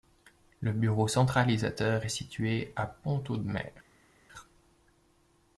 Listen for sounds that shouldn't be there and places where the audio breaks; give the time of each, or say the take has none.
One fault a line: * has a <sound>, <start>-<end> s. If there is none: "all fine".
all fine